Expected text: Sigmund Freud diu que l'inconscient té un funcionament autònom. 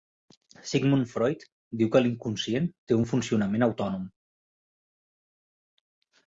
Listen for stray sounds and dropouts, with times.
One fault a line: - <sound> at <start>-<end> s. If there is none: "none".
none